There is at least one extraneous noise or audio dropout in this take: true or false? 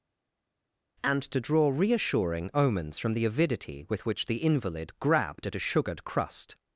false